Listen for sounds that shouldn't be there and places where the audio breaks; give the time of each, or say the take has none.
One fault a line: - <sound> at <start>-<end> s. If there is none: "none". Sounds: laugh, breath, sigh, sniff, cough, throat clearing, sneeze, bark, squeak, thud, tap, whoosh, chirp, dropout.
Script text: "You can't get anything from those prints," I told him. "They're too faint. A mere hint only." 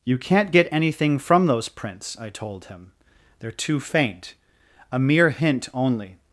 none